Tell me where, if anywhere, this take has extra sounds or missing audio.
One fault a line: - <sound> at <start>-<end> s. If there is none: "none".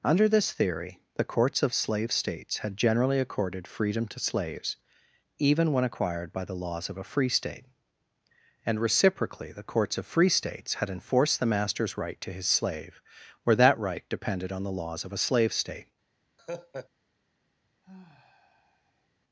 - laugh at 16.4-16.9 s
- sigh at 17.8-19.1 s